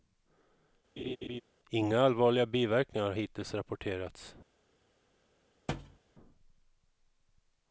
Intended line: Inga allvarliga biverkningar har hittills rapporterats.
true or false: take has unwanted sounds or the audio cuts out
true